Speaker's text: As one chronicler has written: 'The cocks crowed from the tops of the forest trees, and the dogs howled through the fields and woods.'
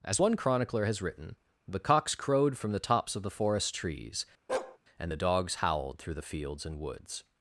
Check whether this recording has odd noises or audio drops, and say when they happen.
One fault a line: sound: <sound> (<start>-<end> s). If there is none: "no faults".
sound: bark (4.5-4.8 s)